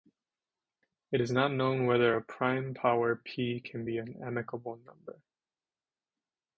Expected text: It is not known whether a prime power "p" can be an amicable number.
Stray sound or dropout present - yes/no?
no